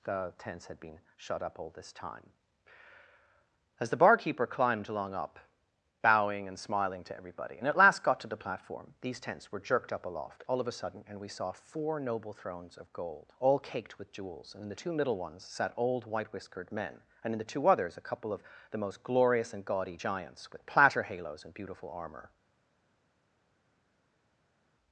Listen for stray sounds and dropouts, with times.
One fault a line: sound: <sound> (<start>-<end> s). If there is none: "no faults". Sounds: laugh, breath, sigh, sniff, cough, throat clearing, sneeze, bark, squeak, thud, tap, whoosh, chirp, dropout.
no faults